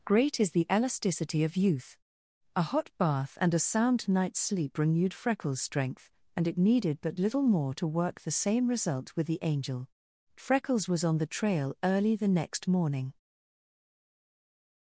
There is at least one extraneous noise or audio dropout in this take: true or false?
false